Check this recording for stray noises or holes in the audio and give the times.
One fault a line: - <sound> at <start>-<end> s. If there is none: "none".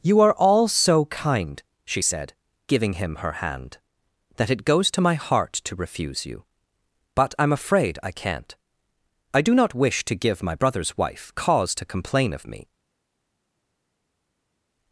none